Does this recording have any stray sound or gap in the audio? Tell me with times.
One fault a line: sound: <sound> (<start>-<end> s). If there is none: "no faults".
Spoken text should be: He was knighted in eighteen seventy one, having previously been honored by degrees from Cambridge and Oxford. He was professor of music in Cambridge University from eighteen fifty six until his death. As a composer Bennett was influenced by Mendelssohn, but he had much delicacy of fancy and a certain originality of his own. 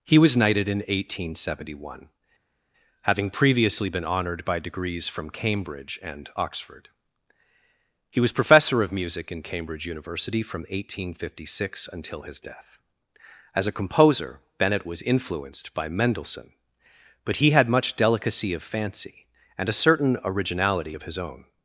no faults